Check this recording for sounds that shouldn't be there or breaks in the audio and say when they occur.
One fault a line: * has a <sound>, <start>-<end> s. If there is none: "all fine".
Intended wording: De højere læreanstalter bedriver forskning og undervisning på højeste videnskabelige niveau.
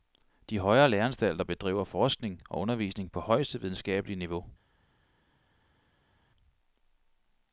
all fine